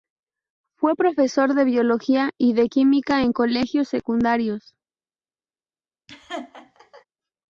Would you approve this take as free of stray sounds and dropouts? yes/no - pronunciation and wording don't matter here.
no